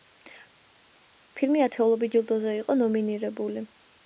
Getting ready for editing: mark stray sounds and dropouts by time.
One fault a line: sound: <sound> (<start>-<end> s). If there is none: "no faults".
no faults